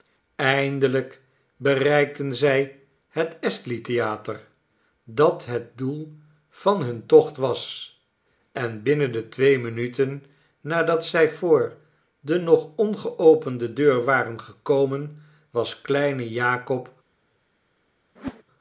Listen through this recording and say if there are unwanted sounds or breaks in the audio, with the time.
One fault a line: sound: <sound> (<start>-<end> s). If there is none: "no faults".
sound: whoosh (18.2-18.4 s)